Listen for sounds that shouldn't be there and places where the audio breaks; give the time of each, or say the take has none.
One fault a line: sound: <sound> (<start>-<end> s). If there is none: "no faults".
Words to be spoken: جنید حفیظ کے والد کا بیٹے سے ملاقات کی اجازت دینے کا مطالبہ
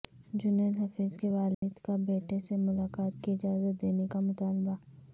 sound: dropout (1.5-1.6 s)